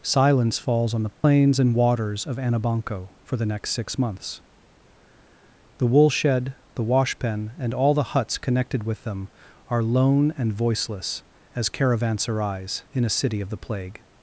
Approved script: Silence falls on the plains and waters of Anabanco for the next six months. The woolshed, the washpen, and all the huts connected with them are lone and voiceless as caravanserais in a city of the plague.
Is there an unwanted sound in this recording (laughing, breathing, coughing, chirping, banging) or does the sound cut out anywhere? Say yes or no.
yes